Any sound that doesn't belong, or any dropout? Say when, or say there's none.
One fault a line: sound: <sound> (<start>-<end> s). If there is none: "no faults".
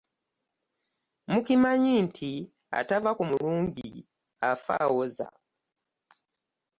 no faults